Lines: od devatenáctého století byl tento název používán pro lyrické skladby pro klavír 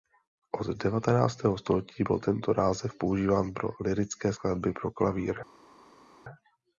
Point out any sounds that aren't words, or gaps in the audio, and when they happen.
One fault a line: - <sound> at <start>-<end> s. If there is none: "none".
none